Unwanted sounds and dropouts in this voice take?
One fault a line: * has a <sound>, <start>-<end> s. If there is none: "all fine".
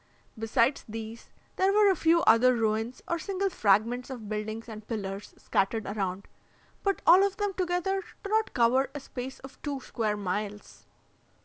all fine